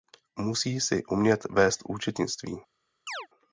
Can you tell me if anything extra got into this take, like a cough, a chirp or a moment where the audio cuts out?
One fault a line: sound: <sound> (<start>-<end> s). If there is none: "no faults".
sound: chirp (3.1-3.3 s)